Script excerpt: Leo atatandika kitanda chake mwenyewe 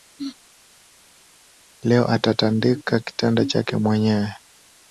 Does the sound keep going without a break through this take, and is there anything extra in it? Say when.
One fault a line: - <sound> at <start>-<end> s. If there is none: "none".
none